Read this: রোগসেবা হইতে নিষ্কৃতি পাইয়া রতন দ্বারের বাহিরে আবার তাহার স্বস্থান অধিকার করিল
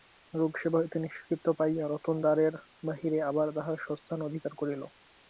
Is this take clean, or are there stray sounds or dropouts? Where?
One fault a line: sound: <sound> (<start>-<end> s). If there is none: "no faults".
no faults